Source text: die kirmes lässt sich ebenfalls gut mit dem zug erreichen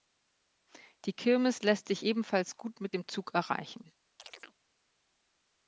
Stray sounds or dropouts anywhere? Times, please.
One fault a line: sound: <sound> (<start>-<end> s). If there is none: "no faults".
sound: chirp (4.2-4.6 s)